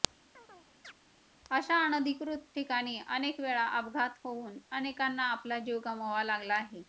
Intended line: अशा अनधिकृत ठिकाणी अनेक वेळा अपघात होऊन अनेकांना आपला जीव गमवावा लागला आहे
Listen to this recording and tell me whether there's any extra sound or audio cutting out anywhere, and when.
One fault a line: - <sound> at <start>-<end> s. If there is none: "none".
- chirp at 0.3-0.9 s